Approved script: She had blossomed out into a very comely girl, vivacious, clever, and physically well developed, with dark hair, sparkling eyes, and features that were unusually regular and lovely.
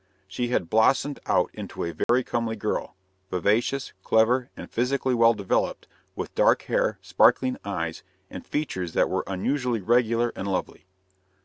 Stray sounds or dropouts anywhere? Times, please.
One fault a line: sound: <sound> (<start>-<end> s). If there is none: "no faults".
sound: dropout (2.0-2.1 s)